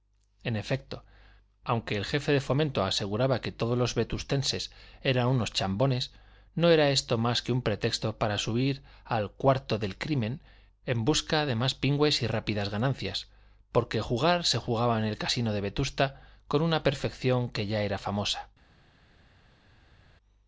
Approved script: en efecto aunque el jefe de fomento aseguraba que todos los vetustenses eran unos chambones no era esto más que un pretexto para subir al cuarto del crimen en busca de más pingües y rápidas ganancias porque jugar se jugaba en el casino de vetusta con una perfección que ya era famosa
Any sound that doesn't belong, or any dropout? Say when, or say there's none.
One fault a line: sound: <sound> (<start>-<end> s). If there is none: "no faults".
no faults